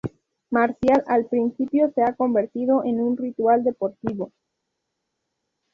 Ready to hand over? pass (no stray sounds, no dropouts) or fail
pass